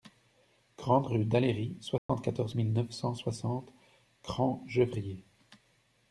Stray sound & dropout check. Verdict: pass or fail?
fail